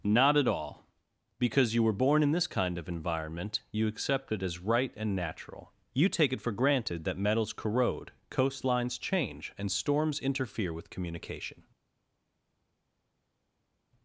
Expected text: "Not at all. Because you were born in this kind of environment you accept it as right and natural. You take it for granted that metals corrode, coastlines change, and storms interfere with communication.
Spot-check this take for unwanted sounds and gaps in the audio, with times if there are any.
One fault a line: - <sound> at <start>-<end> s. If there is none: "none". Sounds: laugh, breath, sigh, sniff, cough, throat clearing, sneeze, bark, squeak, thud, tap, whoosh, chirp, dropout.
none